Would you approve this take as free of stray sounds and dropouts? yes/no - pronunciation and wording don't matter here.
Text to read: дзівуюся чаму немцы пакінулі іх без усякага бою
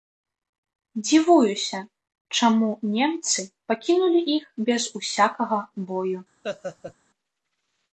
no